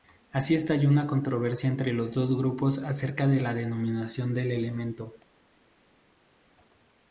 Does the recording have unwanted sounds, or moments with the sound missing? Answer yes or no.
no